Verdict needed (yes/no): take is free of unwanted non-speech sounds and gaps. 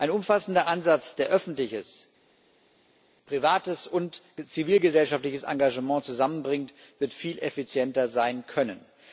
yes